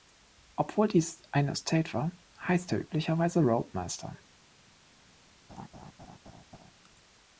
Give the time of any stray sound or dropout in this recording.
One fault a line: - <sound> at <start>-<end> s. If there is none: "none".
- laugh at 5.5-6.7 s